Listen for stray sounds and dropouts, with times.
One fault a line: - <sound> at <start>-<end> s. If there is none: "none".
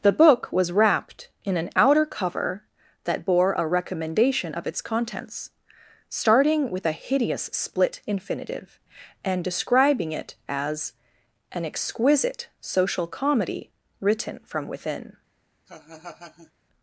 - laugh at 15.7-16.5 s